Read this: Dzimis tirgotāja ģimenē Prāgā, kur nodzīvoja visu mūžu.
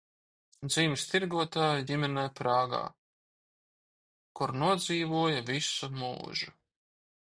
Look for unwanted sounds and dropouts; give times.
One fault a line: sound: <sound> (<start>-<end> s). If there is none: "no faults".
no faults